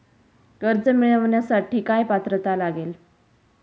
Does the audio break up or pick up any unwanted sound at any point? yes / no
no